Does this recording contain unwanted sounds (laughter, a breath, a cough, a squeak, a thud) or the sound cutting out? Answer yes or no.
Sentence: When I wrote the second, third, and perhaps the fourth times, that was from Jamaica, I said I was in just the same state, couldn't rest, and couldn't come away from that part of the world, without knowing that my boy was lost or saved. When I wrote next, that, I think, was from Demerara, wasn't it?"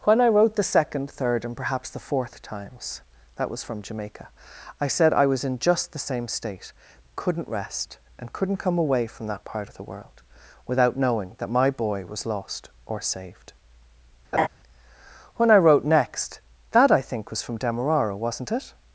yes